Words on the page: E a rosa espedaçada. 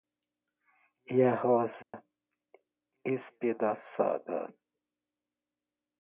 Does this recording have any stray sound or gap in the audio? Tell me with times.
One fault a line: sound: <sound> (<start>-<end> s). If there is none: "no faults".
sound: dropout (1.8-1.9 s)